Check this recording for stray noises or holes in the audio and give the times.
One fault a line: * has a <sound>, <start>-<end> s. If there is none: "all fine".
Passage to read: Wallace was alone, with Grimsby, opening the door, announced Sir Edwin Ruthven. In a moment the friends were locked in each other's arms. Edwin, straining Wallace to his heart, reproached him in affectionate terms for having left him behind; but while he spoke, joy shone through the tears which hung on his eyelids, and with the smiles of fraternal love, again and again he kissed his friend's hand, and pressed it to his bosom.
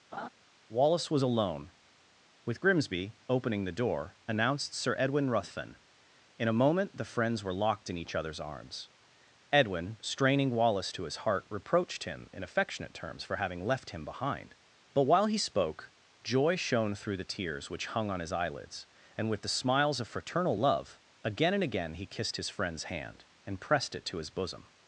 * has a laugh, 0.1-0.3 s